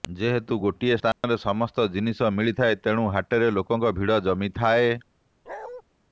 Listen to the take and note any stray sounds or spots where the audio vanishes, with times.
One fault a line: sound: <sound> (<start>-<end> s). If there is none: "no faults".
sound: dropout (1.1-1.2 s)
sound: bark (5.5-5.8 s)